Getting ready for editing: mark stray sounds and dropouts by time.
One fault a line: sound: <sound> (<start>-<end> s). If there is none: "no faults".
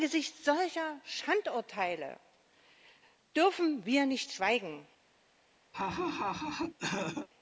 sound: laugh (5.7-7.3 s)